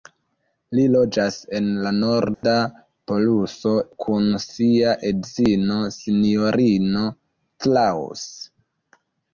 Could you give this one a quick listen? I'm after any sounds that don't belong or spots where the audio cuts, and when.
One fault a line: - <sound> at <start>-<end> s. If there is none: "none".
- dropout at 2.3-2.4 s